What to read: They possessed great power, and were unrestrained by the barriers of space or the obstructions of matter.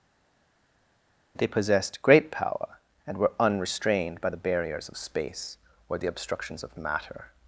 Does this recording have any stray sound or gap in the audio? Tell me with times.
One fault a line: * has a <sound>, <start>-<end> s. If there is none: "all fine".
all fine